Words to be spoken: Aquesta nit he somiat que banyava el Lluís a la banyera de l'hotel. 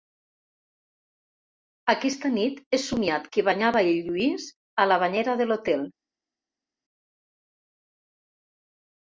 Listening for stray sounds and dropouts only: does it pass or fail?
pass